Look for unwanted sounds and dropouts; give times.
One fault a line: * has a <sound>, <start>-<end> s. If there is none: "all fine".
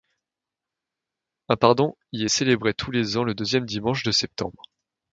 all fine